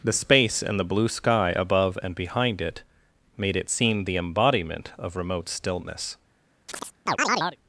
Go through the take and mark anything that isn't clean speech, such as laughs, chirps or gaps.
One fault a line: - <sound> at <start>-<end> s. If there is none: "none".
- chirp at 6.7-7.6 s